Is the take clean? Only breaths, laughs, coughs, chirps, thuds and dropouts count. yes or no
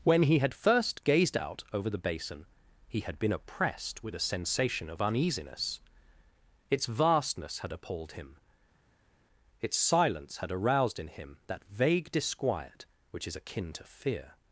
yes